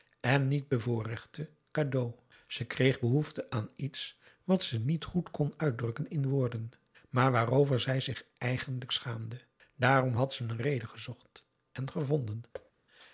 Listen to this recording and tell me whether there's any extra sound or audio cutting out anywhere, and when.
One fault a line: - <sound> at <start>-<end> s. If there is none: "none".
- thud at 12.5-12.7 s